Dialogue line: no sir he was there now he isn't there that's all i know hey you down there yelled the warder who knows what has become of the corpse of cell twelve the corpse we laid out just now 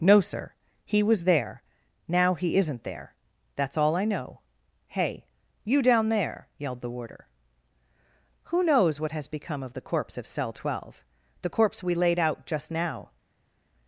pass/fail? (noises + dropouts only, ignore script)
pass